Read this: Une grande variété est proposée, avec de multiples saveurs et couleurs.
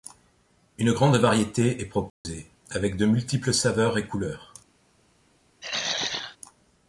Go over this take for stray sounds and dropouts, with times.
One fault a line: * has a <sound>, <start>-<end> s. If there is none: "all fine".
* has a dropout, 2.1-2.2 s
* has a throat clearing, 5.6-6.4 s